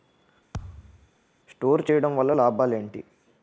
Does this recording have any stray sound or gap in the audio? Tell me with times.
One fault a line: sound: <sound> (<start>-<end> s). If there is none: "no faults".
sound: thud (0.5-1.1 s)